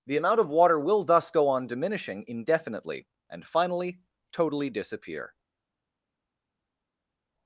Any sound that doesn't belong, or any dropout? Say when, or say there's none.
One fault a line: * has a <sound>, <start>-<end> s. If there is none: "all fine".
all fine